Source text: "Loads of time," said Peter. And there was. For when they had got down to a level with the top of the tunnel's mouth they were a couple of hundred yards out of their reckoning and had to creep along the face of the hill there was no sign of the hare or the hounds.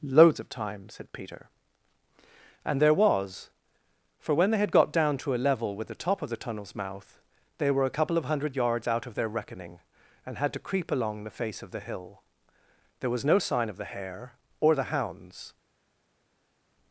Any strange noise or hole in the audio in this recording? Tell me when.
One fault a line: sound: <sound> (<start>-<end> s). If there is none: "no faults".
no faults